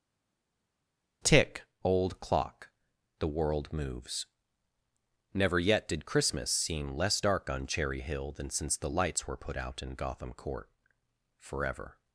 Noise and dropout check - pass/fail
pass